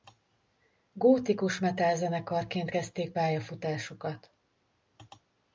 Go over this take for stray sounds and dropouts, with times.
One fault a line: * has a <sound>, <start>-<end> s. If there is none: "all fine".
all fine